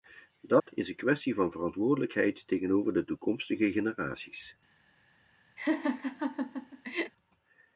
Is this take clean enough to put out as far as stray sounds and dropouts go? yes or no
no